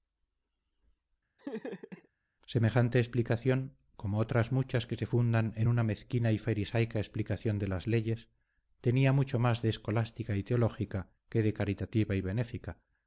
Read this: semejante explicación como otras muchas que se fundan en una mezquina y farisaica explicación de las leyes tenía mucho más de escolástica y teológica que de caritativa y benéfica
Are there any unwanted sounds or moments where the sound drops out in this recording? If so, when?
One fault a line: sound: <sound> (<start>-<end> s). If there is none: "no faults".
sound: laugh (1.4-2.1 s)